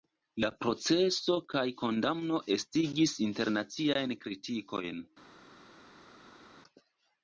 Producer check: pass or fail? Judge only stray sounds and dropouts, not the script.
pass